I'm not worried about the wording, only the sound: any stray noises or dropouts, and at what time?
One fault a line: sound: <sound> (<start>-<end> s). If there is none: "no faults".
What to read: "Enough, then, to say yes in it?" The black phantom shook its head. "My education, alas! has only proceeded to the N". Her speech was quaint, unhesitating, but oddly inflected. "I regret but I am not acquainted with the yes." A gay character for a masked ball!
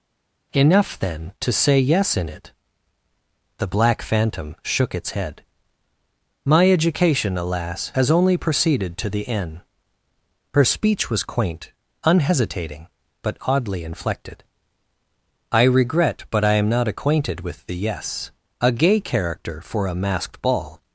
no faults